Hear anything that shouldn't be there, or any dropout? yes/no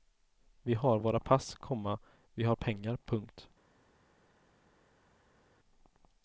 no